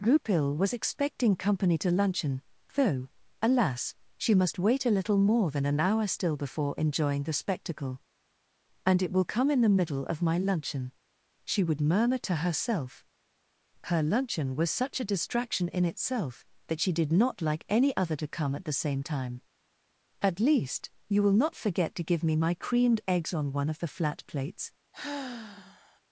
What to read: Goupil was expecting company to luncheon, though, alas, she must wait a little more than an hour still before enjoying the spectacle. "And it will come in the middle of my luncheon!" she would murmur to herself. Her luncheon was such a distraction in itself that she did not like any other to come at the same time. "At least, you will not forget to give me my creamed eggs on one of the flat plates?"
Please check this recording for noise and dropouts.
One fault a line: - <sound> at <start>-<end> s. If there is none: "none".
- sigh at 24.9-26.0 s